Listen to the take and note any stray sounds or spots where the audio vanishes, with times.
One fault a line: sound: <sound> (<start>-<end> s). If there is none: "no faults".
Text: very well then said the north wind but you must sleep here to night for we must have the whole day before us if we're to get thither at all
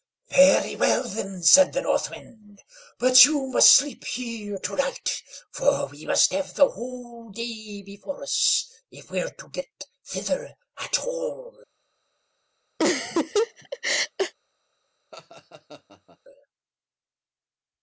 sound: laugh (12.8-14.3 s)
sound: laugh (15.1-16.2 s)